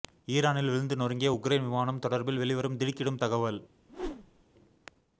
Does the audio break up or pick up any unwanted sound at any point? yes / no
yes